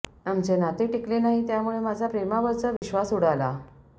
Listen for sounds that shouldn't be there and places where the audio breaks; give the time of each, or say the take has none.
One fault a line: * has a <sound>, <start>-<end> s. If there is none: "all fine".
* has a dropout, 2.8-2.8 s